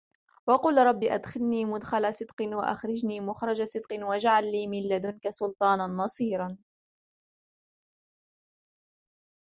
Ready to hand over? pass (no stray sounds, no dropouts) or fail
pass